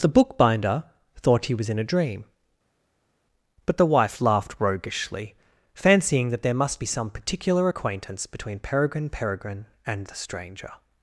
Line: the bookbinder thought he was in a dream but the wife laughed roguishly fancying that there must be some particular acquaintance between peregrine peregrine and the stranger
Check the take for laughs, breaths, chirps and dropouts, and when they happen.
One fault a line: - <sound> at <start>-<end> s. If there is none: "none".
none